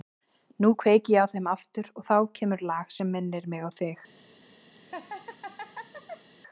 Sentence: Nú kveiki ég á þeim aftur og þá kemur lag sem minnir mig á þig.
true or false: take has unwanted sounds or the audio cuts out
true